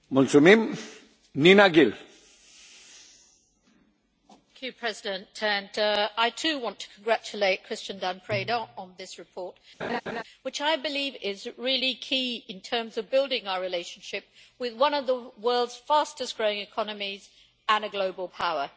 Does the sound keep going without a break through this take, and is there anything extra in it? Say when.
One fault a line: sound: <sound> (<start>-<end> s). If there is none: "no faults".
sound: laugh (9.8-10.2 s)